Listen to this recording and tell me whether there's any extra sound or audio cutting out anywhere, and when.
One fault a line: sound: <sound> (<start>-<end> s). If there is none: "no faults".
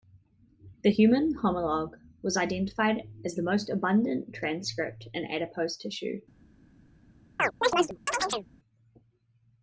sound: chirp (7.4-8.5 s)